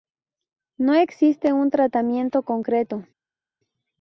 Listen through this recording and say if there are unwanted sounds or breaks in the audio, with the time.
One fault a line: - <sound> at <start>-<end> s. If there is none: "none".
none